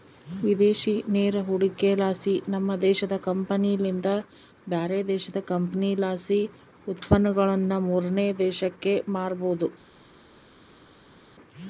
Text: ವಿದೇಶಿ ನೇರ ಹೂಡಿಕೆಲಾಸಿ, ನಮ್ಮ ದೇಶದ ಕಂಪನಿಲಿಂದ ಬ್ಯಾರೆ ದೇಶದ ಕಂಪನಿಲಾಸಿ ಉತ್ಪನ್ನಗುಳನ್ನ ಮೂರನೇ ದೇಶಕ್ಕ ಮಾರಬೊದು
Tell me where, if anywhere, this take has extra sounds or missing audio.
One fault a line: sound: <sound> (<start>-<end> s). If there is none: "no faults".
no faults